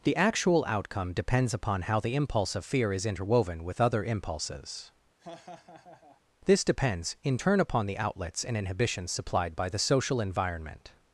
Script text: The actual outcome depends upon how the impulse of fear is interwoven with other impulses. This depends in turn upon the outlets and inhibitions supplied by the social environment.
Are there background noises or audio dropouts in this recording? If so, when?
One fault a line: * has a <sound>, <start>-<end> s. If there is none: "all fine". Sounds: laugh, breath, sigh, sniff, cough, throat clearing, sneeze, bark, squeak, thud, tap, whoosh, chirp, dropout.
* has a laugh, 5.2-6.2 s